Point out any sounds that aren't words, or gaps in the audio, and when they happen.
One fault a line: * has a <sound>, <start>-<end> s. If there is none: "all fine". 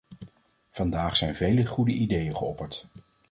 all fine